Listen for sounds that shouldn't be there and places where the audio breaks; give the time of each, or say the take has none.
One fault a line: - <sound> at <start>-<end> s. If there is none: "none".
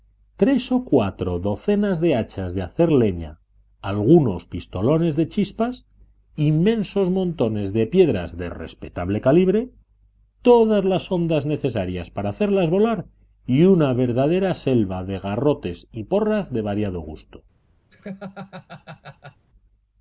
- laugh at 17.9-19.4 s